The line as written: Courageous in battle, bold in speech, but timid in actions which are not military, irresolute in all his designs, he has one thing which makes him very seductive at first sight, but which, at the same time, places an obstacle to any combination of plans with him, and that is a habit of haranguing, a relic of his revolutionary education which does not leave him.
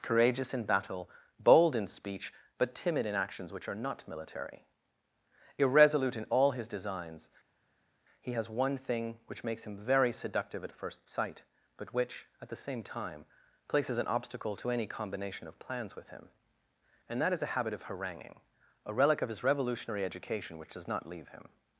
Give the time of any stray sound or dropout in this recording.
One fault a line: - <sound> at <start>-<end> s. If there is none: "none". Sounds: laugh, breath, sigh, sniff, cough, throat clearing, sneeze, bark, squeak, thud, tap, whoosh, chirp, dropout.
none